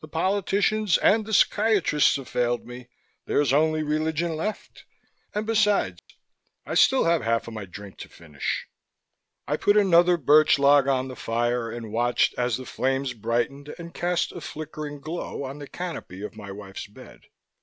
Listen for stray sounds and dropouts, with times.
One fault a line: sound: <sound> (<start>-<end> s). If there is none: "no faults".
sound: dropout (6.0-6.1 s)